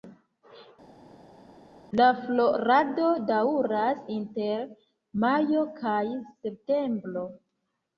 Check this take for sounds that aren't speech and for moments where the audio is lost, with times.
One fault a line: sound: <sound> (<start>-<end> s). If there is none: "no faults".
no faults